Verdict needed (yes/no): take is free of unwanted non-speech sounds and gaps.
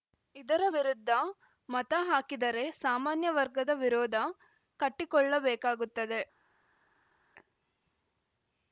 yes